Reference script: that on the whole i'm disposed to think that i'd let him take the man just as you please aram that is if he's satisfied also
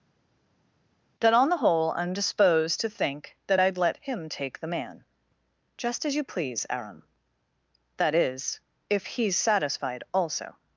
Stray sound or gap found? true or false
false